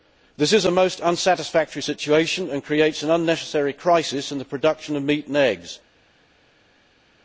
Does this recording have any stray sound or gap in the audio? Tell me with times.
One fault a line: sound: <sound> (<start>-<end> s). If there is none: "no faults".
no faults